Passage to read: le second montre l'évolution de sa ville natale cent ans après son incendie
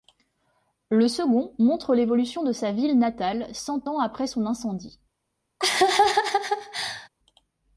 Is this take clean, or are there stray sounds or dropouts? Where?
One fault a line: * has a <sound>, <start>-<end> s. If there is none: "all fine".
* has a laugh, 5.6-7.1 s